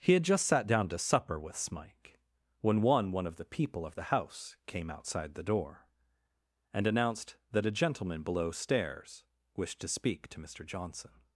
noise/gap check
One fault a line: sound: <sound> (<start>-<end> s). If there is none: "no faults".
no faults